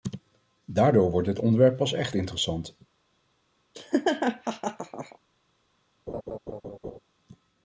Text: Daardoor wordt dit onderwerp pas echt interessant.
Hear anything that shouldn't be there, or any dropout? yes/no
yes